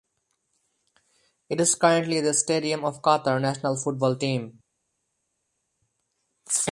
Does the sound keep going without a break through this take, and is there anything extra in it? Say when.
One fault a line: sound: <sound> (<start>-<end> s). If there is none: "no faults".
no faults